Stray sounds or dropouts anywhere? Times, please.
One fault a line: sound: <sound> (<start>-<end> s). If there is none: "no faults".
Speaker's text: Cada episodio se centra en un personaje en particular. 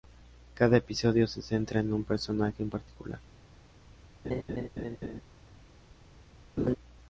sound: laugh (4.2-5.2 s)
sound: laugh (6.6-6.8 s)